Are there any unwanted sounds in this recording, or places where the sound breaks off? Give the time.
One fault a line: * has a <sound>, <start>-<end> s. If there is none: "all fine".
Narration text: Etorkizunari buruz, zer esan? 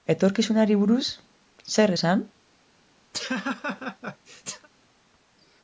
* has a laugh, 3.1-4.7 s